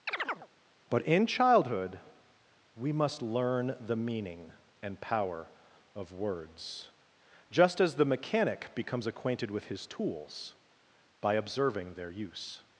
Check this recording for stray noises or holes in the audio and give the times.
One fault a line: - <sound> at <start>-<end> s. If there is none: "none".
- chirp at 0.1-0.5 s